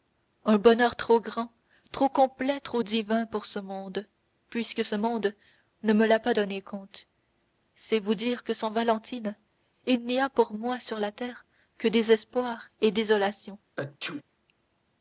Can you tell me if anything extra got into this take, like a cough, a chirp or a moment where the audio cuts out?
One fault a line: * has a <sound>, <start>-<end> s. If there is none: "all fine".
* has a sneeze, 13.8-14.2 s